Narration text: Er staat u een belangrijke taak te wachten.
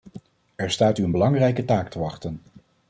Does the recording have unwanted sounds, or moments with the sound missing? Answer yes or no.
no